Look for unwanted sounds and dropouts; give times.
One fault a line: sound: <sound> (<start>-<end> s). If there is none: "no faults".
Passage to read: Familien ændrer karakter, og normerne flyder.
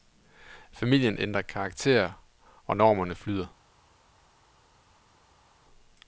no faults